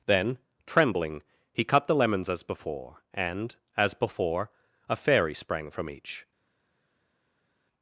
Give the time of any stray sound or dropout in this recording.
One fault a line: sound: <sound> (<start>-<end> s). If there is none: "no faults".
no faults